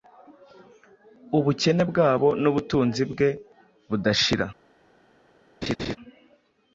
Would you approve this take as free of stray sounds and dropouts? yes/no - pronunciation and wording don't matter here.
no